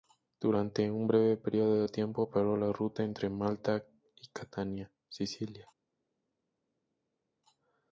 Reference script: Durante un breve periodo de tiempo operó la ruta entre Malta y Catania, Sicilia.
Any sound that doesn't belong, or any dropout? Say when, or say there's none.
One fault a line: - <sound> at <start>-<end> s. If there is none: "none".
none